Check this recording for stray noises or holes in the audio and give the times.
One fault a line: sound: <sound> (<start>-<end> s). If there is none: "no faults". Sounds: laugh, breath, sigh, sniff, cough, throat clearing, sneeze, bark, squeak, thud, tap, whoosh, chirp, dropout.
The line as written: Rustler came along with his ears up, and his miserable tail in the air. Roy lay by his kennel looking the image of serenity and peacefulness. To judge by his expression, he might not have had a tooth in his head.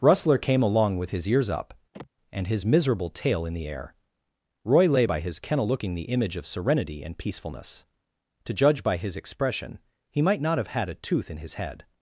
sound: sigh (1.9-2.1 s)